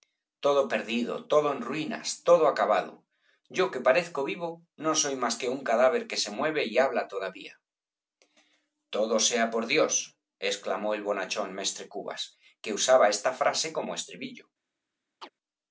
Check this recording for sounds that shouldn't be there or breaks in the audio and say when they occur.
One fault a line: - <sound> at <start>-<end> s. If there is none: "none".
- chirp at 15.2-15.3 s